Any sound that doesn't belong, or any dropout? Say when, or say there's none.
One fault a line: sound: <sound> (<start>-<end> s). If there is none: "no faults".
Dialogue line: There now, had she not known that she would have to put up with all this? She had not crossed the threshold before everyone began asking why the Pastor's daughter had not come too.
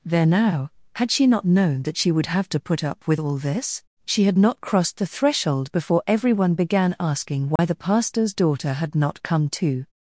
sound: dropout (7.6-7.6 s)